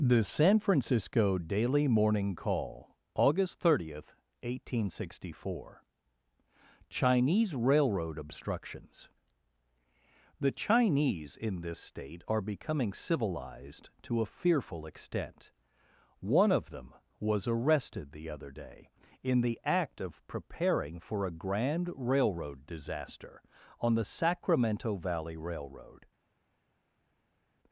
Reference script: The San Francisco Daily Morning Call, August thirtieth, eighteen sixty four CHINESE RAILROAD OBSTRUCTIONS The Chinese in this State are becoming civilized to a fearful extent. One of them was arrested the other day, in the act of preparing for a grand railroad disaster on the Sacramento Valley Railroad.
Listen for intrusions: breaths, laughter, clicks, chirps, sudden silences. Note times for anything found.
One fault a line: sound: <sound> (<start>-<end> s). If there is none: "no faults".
no faults